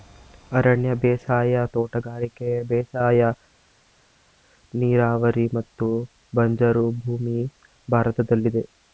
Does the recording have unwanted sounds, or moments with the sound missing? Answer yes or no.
no